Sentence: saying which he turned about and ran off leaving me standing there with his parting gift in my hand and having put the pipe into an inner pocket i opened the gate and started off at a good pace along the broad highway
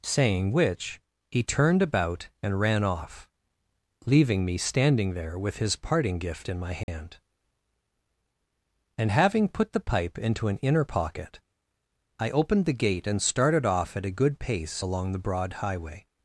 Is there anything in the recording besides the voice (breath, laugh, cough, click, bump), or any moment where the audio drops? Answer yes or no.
yes